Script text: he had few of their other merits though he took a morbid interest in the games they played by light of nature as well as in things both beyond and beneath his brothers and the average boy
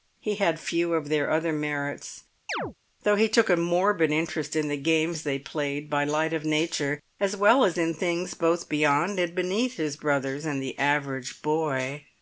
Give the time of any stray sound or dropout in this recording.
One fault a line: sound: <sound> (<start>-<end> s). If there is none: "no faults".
sound: chirp (2.5-2.7 s)